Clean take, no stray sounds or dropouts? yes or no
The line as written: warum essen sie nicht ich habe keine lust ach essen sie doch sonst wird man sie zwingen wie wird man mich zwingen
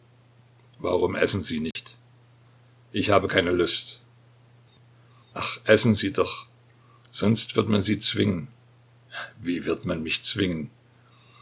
no